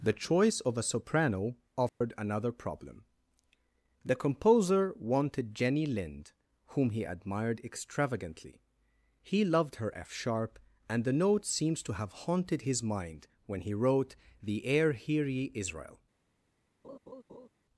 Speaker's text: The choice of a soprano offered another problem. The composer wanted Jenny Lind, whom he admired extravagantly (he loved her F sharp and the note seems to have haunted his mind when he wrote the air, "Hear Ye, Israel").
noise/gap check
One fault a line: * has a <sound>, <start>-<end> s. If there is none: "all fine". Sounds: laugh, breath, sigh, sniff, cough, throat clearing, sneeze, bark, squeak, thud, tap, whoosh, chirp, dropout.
* has a dropout, 1.9-2.0 s
* has a laugh, 16.8-17.5 s